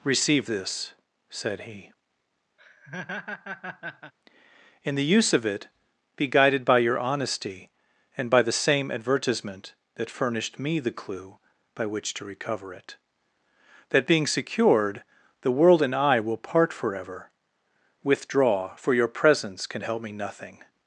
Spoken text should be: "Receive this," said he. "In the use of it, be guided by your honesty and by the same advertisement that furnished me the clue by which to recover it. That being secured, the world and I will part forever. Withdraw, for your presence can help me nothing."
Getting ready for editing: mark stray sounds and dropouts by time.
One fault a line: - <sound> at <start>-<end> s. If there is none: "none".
- laugh at 2.6-4.1 s